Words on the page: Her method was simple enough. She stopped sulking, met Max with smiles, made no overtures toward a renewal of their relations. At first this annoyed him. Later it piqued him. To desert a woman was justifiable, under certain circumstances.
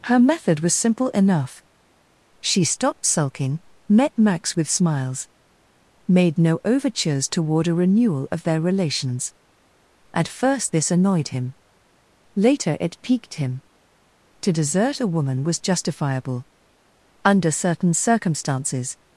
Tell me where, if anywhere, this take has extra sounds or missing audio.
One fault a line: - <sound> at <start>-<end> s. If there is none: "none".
none